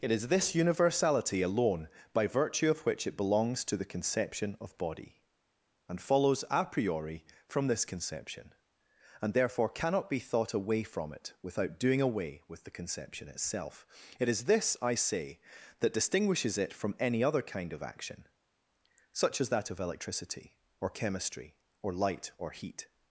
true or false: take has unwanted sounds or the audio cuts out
false